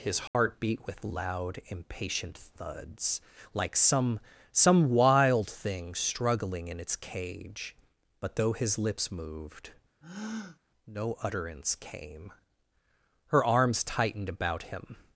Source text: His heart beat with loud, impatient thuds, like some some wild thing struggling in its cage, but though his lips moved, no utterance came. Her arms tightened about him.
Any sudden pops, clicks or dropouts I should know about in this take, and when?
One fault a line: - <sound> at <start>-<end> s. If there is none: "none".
- dropout at 0.3-0.3 s
- breath at 10.0-10.6 s